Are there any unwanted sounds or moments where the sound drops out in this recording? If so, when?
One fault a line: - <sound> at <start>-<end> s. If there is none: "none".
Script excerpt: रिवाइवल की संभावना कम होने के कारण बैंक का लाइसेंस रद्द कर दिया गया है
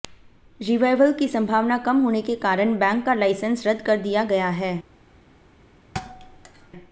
- thud at 5.9-6.7 s